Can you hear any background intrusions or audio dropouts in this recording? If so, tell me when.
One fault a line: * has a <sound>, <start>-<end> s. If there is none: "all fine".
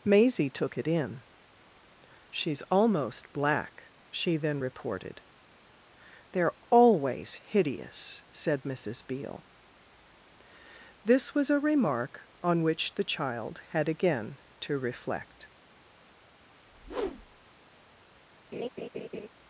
* has a whoosh, 16.6-17.5 s
* has a laugh, 18.5-19.3 s